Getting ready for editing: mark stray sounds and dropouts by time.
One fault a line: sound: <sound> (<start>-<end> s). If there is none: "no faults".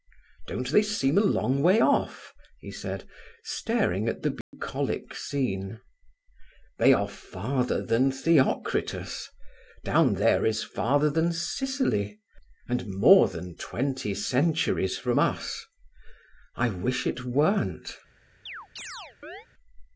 sound: dropout (4.4-4.5 s)
sound: chirp (18.5-19.5 s)